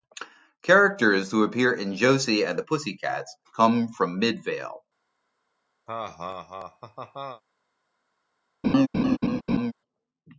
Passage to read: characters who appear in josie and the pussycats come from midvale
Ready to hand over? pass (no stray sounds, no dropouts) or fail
fail